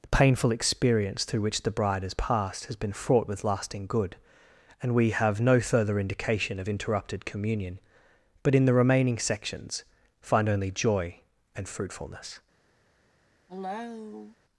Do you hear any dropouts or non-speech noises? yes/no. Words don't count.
yes